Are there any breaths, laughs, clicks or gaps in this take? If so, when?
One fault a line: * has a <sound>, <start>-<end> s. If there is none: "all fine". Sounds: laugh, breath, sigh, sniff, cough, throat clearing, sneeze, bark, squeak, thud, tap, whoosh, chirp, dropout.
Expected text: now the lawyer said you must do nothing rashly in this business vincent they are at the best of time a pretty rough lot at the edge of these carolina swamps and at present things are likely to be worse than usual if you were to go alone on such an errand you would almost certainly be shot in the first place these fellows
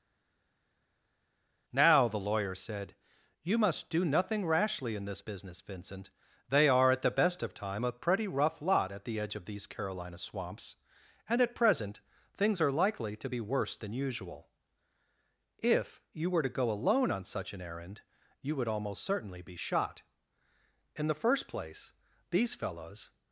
all fine